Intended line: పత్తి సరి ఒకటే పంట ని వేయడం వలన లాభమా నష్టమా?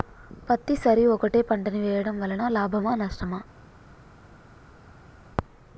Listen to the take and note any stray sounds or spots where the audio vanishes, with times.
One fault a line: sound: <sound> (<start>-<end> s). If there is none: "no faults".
no faults